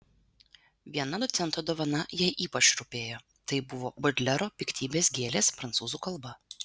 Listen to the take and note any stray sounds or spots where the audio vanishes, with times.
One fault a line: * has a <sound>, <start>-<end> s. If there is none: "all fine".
all fine